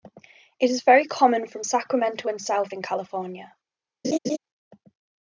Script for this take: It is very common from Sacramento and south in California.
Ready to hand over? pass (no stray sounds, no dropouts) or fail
fail